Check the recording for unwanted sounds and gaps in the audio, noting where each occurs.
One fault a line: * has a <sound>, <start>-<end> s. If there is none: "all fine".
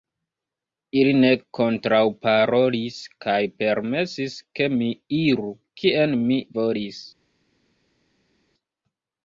all fine